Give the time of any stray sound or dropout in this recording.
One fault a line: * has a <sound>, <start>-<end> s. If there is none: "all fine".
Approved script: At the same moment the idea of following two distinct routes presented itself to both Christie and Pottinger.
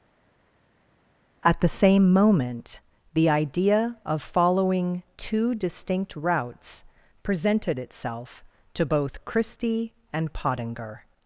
all fine